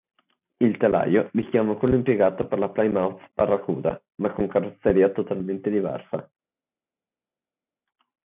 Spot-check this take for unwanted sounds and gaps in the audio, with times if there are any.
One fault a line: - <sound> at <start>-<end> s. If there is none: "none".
none